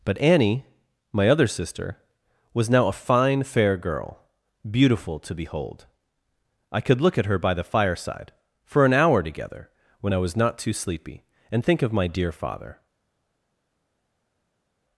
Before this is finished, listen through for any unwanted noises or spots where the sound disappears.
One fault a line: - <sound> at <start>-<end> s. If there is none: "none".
none